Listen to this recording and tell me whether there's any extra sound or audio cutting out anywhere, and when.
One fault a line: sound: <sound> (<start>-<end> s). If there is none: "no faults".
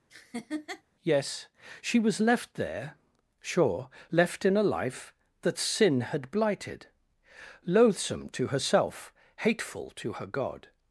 sound: laugh (0.1-0.8 s)